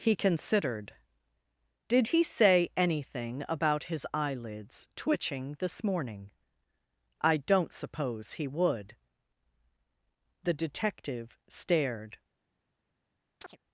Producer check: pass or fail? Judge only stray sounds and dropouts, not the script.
fail